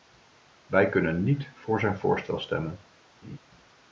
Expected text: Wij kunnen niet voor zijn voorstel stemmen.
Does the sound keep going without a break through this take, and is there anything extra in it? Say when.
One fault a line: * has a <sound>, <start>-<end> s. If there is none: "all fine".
* has a laugh, 3.2-3.4 s